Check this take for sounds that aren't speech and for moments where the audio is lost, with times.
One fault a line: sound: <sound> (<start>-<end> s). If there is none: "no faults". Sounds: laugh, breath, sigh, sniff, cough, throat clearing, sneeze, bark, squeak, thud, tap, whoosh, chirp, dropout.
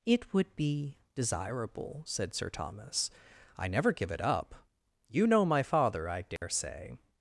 sound: dropout (6.4-6.4 s)